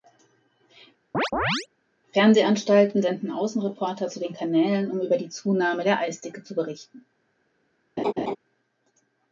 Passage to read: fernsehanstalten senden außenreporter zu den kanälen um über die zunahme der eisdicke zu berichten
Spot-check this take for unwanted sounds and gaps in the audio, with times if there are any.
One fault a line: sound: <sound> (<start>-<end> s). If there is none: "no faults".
sound: chirp (1.1-1.7 s)
sound: laugh (8.0-8.4 s)